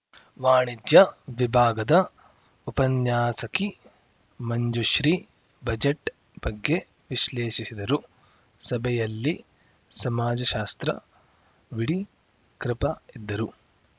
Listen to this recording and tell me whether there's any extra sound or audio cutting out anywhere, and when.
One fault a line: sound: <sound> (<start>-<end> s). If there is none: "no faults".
no faults